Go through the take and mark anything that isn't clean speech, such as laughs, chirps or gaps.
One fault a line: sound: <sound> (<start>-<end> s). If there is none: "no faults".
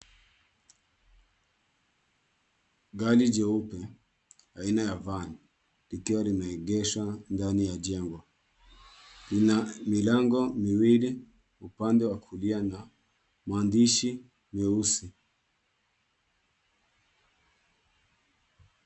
no faults